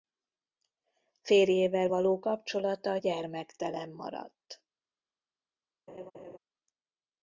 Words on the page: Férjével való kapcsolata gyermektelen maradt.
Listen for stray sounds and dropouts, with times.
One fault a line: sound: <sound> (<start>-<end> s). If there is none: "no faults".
sound: laugh (5.9-6.4 s)